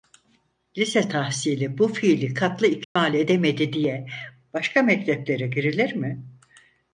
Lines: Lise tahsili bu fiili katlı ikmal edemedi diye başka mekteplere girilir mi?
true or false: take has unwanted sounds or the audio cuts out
true